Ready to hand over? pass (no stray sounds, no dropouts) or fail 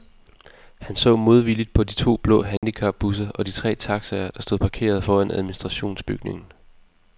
fail